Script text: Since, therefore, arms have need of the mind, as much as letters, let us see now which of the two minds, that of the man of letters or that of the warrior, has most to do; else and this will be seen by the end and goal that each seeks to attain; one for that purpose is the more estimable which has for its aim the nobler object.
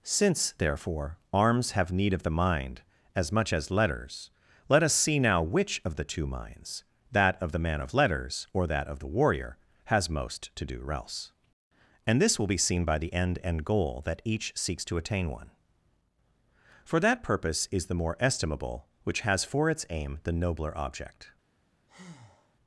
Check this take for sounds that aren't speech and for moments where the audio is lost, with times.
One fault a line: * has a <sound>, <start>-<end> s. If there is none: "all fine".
* has a breath, 21.9-22.6 s